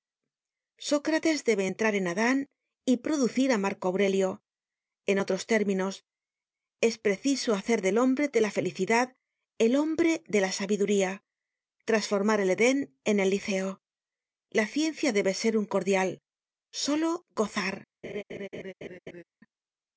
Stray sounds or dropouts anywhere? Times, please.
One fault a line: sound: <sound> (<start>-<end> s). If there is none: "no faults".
sound: laugh (18.0-19.2 s)